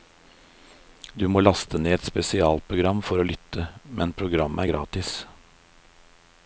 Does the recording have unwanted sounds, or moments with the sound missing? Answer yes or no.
no